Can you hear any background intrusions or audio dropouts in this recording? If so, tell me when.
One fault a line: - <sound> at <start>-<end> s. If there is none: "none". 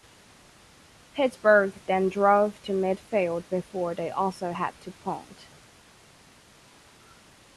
none